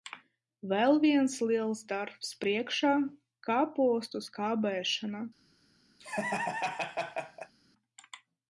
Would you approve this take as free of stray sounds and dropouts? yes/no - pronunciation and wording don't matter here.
no